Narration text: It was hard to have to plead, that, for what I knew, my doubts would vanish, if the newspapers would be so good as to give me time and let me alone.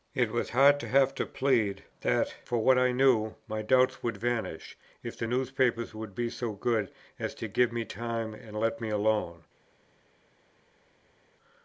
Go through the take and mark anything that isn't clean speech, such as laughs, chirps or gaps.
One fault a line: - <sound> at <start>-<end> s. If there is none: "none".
none